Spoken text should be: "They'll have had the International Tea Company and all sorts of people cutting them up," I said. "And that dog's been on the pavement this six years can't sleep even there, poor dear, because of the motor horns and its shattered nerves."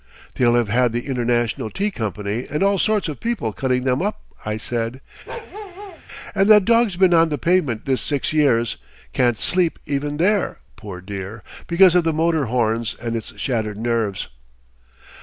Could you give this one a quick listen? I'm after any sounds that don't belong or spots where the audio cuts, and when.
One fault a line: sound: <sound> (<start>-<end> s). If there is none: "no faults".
sound: bark (5.3-6.0 s)